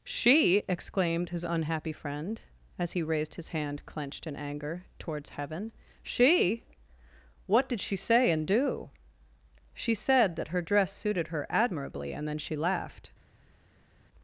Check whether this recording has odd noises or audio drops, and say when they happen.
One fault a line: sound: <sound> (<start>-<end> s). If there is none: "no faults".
no faults